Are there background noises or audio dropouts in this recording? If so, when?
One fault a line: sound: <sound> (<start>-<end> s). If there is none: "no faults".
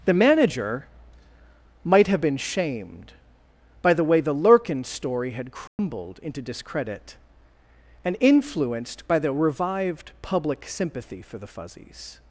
sound: dropout (5.7-5.8 s)